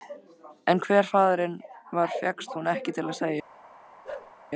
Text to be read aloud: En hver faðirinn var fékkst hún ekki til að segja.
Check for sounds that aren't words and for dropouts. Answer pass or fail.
fail